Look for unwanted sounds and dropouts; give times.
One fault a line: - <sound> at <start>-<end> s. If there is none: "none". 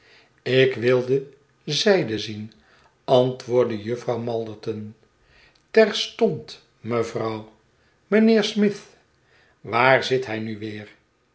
none